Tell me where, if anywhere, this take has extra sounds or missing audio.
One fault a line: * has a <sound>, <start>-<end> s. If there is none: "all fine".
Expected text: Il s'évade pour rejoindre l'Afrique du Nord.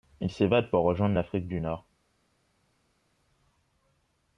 all fine